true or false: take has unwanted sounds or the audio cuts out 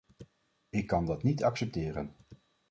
false